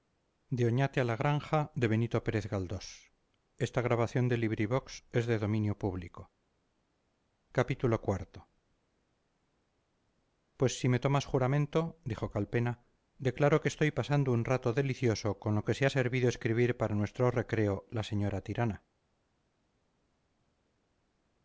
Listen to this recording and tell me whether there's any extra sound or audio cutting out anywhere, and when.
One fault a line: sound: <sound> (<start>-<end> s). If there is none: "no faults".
no faults